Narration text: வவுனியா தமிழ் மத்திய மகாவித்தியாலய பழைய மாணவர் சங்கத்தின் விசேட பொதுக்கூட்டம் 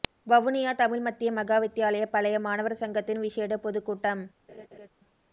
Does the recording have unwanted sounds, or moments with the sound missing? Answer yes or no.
yes